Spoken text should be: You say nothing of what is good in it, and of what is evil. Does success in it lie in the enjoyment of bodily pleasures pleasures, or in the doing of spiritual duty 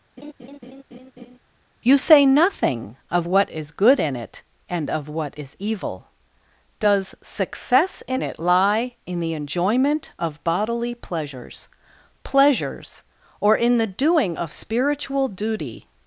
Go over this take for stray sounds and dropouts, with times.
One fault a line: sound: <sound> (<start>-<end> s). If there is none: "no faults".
sound: laugh (0.2-1.4 s)